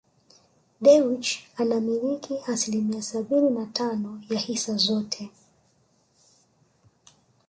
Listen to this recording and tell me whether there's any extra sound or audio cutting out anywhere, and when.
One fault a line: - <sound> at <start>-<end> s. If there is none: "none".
none